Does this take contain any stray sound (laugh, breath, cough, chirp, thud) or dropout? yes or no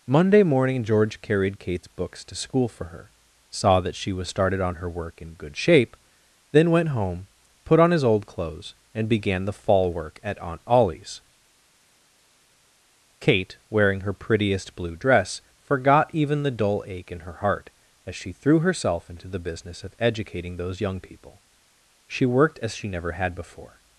no